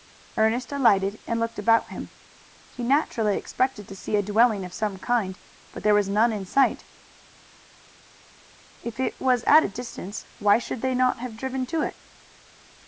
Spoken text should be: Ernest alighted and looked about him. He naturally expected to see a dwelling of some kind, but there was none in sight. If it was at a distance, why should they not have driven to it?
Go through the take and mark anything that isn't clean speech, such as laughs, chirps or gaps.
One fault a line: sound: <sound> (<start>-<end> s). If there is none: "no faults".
no faults